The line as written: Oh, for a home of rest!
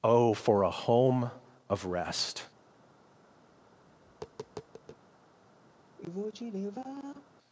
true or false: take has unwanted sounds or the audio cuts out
true